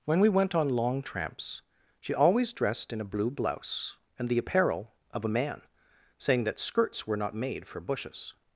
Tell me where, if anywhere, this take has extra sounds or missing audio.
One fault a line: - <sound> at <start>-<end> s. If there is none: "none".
none